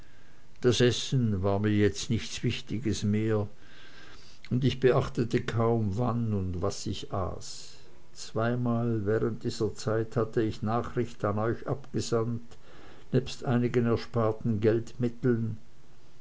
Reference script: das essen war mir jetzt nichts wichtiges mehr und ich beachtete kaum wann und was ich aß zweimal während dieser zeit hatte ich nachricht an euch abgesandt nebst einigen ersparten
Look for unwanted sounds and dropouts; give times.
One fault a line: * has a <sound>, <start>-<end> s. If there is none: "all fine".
all fine